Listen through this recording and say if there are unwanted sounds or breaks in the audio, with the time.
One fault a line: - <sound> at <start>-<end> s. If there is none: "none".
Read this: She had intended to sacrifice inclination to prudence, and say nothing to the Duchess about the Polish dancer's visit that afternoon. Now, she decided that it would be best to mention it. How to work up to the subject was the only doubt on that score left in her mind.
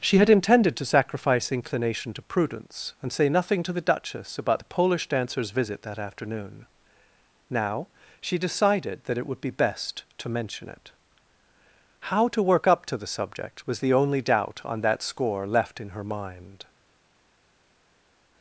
none